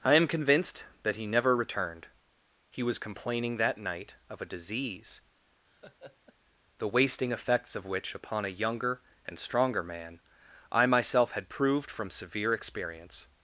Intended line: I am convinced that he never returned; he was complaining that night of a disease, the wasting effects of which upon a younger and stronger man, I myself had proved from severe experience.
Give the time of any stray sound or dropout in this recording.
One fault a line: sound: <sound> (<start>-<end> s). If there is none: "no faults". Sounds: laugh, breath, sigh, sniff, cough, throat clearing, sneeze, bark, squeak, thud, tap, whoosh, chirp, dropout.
sound: laugh (5.6-6.3 s)